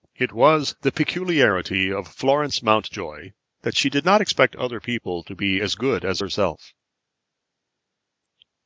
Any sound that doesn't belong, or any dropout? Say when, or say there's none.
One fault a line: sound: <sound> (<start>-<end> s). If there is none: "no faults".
no faults